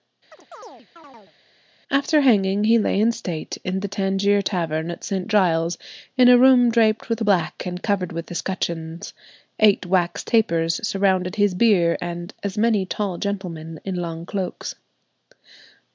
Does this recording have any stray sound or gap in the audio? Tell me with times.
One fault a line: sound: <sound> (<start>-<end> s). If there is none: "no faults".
sound: chirp (0.3-1.3 s)